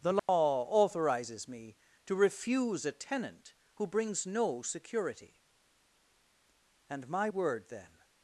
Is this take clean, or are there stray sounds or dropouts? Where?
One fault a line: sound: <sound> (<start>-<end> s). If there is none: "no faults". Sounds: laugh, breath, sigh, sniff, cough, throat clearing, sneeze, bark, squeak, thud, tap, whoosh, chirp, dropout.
sound: dropout (0.2-0.3 s)